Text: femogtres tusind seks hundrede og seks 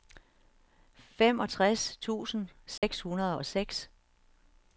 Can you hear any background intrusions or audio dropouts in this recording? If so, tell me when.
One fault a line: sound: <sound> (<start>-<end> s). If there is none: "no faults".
sound: dropout (2.8-2.8 s)